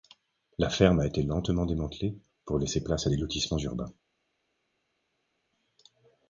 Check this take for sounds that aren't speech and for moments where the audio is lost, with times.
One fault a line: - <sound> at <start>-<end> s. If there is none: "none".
none